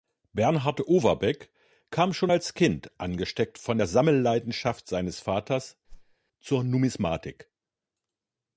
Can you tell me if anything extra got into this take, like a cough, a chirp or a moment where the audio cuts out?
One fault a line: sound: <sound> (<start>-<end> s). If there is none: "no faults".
sound: whoosh (5.9-6.2 s)